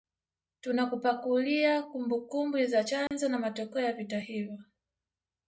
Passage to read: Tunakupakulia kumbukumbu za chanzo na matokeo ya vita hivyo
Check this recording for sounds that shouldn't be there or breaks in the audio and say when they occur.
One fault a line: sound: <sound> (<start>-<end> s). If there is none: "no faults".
sound: dropout (3.1-3.1 s)